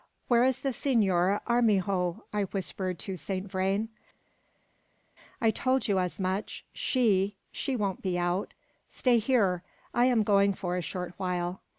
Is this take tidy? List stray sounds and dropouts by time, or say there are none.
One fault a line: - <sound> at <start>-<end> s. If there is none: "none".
none